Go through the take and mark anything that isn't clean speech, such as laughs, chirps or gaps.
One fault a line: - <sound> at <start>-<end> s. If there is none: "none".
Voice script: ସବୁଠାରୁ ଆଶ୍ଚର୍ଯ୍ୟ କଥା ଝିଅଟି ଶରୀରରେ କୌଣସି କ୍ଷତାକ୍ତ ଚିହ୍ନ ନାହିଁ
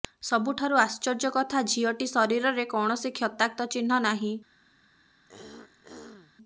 - throat clearing at 5.3-6.3 s